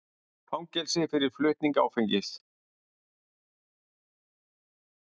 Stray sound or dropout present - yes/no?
no